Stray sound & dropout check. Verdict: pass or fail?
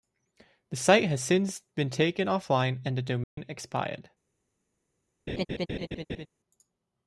fail